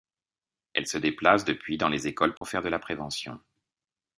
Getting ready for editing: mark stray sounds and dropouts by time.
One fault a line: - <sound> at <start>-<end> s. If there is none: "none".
- dropout at 2.4-2.4 s